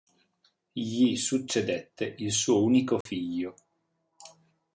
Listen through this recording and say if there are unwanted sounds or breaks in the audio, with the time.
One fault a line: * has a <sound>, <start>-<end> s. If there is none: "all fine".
* has a dropout, 3.0-3.1 s